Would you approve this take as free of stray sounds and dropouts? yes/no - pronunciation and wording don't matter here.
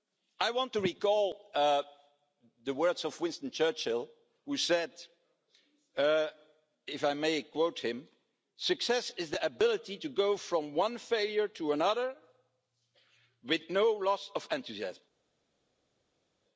yes